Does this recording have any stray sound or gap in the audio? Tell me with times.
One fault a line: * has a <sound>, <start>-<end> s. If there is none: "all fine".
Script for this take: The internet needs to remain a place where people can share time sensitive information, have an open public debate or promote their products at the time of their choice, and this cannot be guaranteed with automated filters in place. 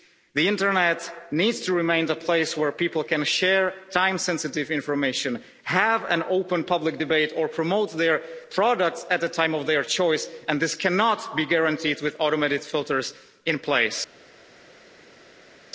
all fine